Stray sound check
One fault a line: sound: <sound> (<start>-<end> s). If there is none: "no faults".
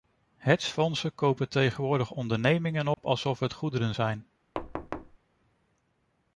sound: dropout (2.9-3.0 s)
sound: thud (4.5-5.2 s)